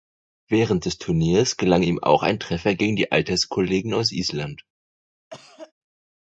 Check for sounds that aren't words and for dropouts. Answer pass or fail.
fail